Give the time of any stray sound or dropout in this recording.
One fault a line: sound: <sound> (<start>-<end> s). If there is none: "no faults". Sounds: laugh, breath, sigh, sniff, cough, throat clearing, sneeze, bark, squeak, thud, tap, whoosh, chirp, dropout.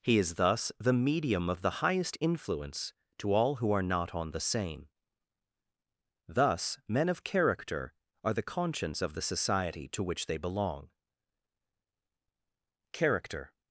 no faults